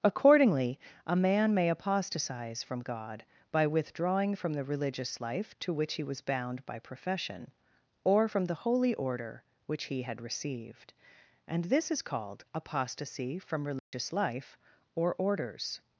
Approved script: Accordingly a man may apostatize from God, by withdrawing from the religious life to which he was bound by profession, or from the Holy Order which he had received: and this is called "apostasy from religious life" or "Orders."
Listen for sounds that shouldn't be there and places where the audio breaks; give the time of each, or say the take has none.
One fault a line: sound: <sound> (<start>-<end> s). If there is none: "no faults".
sound: dropout (13.8-13.9 s)